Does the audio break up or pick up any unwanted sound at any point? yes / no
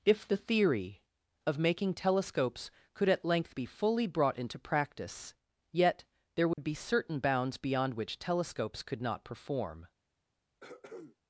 yes